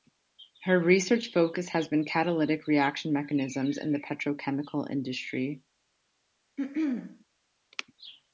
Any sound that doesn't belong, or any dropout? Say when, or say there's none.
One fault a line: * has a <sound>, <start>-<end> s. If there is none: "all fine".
* has a throat clearing, 6.6-7.2 s